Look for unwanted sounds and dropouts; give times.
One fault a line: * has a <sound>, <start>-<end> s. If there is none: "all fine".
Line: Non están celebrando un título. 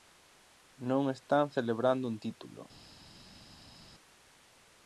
all fine